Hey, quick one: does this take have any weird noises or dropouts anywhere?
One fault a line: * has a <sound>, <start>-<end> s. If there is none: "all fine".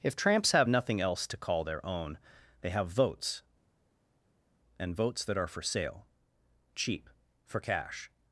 all fine